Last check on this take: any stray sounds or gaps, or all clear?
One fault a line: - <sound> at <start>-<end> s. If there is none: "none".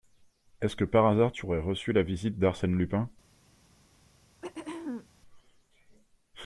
- throat clearing at 4.4-5.1 s